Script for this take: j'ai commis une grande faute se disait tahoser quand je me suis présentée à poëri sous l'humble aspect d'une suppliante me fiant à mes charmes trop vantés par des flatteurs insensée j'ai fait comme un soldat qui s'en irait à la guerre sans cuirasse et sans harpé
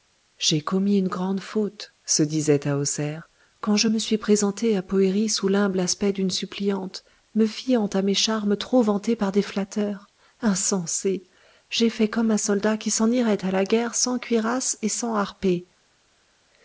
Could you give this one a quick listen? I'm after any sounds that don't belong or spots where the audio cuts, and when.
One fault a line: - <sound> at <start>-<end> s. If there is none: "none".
none